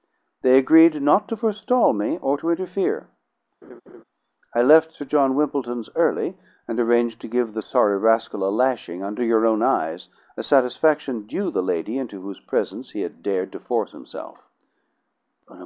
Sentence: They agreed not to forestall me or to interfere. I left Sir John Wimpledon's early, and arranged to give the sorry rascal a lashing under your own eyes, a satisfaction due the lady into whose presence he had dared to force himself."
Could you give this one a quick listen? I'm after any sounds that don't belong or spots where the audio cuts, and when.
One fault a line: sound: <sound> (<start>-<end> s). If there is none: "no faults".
sound: laugh (3.6-4.0 s)